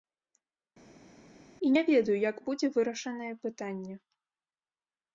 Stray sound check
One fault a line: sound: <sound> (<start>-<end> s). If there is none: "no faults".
no faults